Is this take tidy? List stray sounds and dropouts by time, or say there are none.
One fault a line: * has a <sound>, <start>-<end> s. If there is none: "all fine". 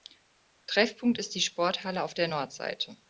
all fine